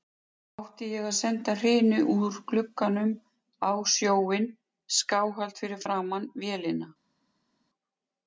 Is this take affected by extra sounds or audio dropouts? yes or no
no